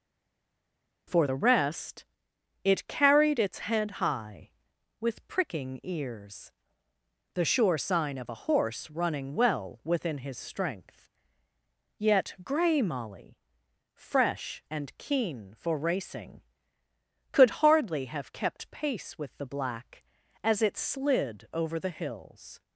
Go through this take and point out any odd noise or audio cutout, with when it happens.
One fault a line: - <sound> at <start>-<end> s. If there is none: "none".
none